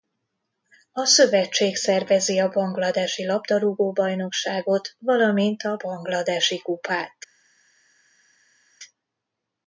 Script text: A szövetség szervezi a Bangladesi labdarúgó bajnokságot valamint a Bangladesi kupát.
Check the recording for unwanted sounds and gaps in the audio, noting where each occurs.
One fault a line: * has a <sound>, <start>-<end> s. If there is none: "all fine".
all fine